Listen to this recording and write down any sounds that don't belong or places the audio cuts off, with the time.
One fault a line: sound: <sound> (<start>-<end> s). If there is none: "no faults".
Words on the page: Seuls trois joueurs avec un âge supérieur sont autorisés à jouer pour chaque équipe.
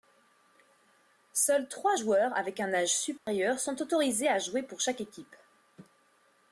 sound: dropout (3.2-3.3 s)